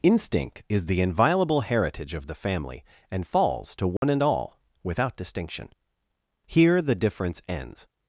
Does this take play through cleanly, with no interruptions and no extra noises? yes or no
no